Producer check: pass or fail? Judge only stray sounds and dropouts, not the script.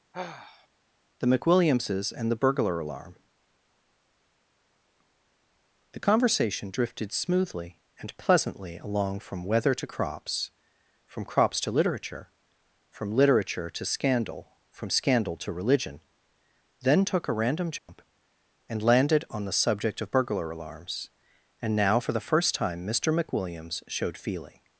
fail